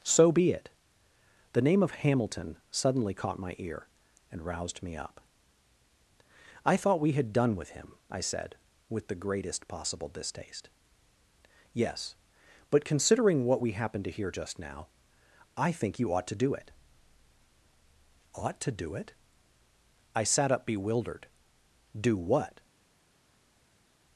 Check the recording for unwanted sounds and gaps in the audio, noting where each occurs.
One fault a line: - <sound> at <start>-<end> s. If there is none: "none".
none